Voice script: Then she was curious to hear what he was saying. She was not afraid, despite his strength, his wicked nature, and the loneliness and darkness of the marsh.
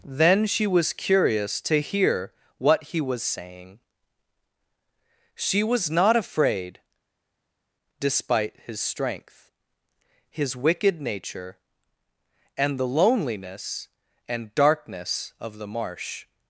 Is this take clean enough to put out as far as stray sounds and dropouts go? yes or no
yes